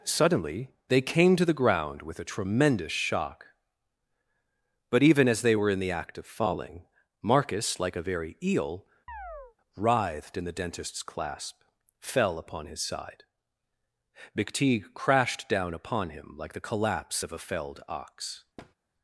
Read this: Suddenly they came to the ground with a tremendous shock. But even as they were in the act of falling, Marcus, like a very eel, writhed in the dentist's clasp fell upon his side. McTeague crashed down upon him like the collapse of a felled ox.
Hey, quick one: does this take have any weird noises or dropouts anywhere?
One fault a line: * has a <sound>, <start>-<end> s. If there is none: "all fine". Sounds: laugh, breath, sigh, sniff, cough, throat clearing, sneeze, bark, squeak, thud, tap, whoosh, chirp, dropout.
* has a chirp, 9.1-9.6 s
* has a thud, 18.6-18.7 s